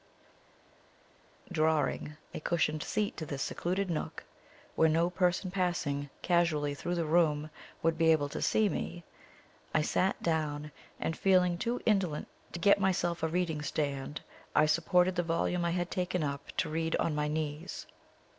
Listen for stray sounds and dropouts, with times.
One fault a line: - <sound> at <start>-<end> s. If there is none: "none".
none